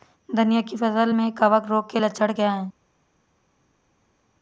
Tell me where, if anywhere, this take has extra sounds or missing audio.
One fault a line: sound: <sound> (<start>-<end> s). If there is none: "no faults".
no faults